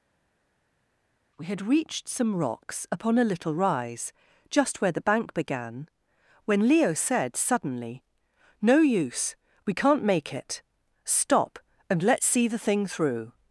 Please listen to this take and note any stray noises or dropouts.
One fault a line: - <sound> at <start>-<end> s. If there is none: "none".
none